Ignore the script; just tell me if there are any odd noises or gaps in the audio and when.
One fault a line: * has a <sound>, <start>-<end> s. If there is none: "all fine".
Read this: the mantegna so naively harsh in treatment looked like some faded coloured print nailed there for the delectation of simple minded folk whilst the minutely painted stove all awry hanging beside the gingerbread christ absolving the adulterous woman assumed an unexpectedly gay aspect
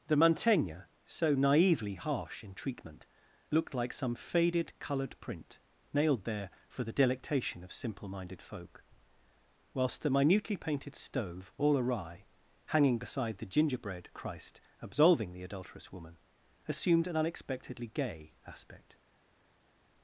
all fine